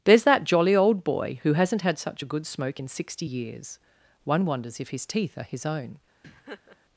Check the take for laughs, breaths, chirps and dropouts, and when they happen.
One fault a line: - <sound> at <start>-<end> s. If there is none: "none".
- laugh at 6.2-6.8 s